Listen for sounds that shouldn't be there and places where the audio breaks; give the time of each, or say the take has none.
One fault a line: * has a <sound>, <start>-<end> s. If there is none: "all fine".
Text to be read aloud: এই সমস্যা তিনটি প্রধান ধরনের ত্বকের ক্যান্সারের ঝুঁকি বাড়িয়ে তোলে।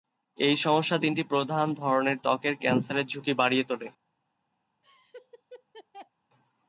* has a laugh, 4.8-6.1 s